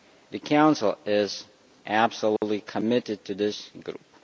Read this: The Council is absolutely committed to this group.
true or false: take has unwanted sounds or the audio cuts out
true